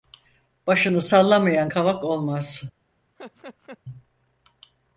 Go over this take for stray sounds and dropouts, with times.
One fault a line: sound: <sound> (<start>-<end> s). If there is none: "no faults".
sound: laugh (3.2-3.8 s)